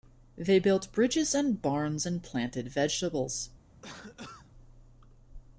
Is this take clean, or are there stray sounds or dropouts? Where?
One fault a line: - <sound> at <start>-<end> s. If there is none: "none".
- cough at 3.8-4.5 s